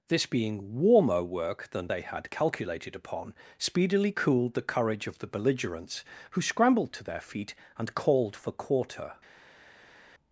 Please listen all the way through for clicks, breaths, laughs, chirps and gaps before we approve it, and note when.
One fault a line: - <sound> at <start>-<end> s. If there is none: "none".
none